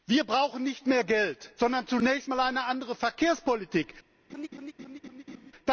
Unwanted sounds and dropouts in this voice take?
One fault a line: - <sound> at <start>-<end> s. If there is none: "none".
- laugh at 4.3-5.5 s